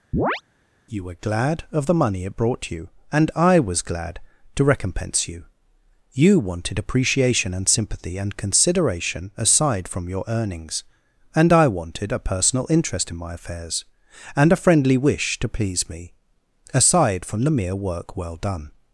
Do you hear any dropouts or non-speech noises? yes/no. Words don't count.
yes